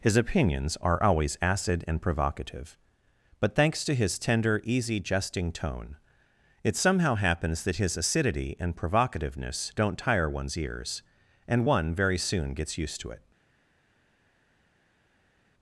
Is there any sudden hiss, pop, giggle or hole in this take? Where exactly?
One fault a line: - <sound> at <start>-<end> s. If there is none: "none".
none